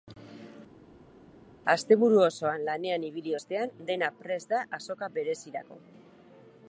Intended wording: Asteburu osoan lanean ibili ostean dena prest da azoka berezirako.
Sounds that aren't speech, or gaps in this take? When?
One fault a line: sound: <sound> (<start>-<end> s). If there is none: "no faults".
no faults